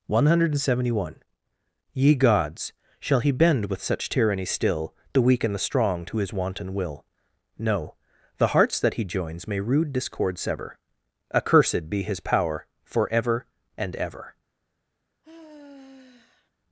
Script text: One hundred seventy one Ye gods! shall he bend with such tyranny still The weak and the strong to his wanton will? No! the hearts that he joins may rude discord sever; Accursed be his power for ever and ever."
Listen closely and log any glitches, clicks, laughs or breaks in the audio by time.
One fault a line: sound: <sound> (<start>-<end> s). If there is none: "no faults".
sound: sigh (15.2-16.5 s)